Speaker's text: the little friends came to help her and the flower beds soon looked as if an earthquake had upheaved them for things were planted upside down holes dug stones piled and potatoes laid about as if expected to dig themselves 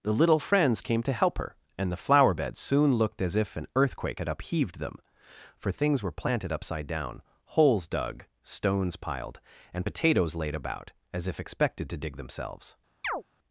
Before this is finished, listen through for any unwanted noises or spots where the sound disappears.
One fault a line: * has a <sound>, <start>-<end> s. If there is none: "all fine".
* has a chirp, 13.0-13.2 s